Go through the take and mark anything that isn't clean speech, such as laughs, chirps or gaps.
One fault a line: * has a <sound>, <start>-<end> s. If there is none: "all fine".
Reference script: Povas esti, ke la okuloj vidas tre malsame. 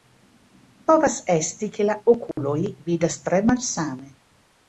* has a dropout, 2.3-2.4 s